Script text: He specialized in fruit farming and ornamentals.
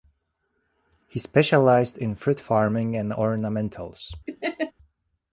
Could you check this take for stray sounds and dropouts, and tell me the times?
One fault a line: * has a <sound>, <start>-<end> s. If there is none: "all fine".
* has a laugh, 4.3-4.7 s